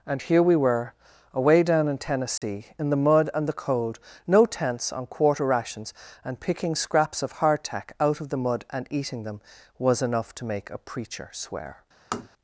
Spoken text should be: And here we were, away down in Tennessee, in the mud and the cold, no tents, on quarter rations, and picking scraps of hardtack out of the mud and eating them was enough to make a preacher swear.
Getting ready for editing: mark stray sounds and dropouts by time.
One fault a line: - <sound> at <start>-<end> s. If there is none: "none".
- dropout at 2.4-2.4 s
- tap at 12.1-12.3 s